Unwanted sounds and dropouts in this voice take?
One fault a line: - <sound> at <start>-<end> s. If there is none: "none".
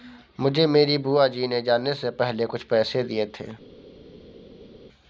none